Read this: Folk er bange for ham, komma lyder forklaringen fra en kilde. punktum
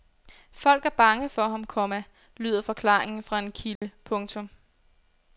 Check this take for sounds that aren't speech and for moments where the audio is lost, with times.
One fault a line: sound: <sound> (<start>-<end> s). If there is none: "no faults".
sound: dropout (3.8-3.8 s)